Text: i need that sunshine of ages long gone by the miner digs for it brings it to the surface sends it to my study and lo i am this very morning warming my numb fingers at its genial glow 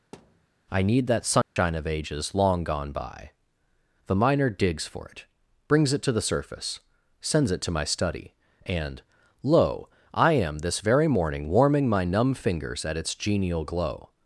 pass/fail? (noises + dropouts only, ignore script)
fail